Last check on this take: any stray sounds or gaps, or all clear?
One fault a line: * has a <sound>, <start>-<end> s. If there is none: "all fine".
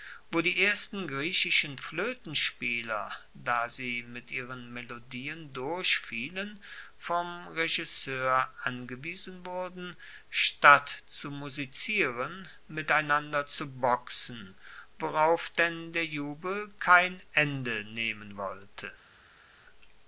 all fine